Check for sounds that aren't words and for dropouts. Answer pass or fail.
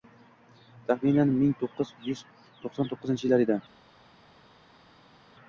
pass